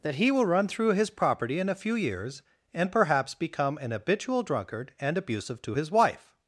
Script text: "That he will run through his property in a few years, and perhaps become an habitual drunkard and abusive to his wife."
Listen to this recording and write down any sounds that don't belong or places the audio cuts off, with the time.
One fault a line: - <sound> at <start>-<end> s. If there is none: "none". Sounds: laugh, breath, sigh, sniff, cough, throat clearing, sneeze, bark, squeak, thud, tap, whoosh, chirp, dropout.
none